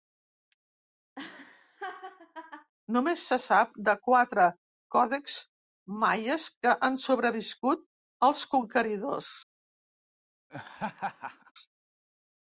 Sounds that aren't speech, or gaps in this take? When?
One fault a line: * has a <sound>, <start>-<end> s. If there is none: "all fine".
* has a laugh, 1.2-2.7 s
* has a laugh, 10.5-11.5 s